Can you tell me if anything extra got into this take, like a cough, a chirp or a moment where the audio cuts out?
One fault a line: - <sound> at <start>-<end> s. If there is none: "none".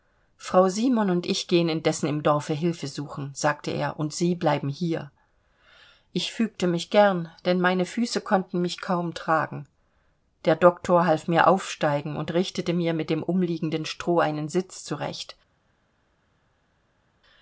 none